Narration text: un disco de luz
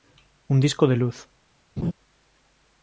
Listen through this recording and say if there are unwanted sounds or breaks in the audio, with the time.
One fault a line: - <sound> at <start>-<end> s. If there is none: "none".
- laugh at 1.8-1.9 s